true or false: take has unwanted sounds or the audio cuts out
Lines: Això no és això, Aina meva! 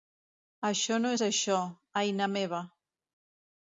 false